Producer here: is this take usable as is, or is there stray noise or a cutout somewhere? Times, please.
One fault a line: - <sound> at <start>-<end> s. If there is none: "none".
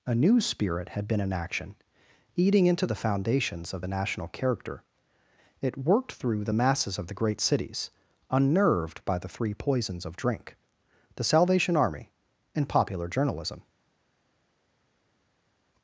none